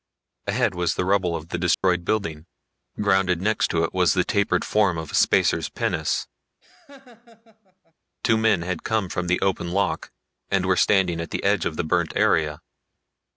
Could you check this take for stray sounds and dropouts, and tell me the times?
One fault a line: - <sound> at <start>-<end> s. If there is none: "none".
- dropout at 1.7-1.8 s
- laugh at 6.6-7.9 s